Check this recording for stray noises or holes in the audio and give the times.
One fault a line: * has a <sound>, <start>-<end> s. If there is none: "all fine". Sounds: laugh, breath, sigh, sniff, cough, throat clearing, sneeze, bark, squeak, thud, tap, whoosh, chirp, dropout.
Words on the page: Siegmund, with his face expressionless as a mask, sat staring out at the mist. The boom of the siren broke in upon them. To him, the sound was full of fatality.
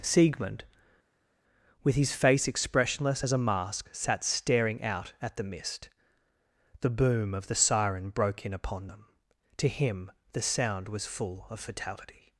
all fine